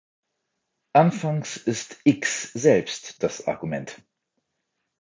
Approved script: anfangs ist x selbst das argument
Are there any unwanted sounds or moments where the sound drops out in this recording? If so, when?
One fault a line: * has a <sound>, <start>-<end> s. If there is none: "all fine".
all fine